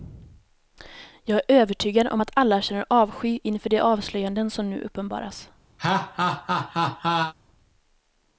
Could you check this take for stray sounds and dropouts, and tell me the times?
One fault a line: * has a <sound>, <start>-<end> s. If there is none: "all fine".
* has a laugh, 5.8-7.3 s